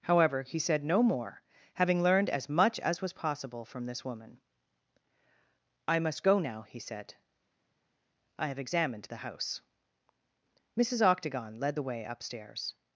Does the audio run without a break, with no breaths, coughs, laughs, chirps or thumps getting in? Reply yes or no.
yes